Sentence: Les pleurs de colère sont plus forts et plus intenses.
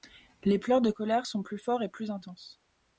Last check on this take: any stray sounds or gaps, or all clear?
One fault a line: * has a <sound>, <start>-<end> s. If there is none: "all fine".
all fine